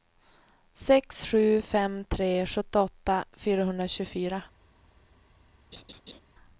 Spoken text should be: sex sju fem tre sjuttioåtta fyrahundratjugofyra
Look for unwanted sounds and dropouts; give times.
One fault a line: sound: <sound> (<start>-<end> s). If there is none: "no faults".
sound: laugh (5.7-6.2 s)